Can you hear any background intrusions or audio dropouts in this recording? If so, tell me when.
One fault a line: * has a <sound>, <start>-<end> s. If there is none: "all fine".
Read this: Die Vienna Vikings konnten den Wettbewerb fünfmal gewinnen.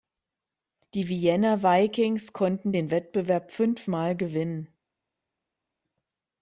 all fine